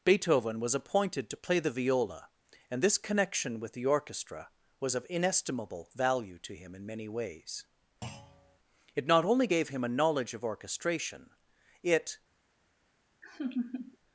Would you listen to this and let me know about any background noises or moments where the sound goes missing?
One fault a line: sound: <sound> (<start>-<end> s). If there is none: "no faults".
sound: thud (8.0-8.6 s)
sound: laugh (13.2-14.0 s)